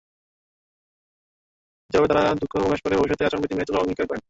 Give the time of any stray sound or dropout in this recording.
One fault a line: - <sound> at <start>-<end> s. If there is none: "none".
none